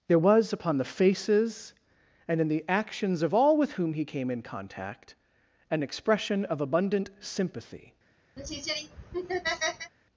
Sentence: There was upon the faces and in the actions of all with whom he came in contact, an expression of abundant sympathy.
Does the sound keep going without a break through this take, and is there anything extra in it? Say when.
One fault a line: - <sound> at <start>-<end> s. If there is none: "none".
- laugh at 8.4-9.9 s